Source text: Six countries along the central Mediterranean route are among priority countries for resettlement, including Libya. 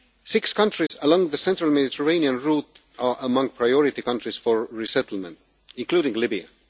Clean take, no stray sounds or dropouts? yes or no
no